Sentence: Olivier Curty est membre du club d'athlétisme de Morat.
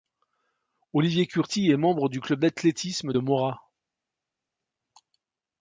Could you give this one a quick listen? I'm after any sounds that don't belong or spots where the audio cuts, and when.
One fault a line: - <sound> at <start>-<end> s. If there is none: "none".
none